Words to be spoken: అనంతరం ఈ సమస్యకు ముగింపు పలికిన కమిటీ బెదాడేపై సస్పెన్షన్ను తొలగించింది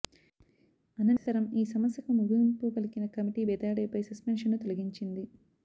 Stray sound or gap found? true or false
true